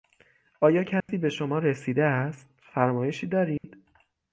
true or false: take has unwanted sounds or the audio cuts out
true